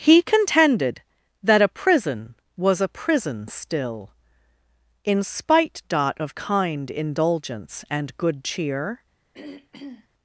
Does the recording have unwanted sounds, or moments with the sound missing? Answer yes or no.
yes